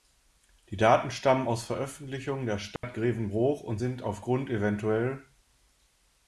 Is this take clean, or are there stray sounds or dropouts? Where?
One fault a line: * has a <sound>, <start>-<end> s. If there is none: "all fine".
* has a dropout, 2.8-2.8 s